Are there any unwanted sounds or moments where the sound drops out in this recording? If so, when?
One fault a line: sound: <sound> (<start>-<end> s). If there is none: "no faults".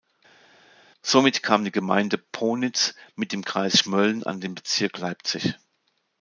no faults